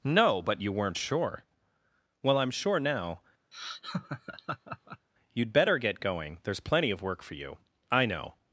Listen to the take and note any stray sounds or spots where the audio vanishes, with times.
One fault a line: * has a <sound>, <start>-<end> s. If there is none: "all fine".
* has a laugh, 3.5-5.1 s